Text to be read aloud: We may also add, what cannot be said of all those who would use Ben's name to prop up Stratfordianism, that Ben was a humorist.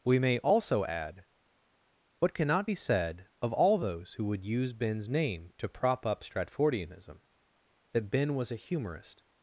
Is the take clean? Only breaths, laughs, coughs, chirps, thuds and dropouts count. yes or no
yes